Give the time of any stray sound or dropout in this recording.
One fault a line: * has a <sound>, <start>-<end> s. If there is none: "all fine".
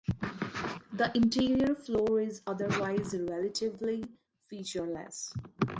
all fine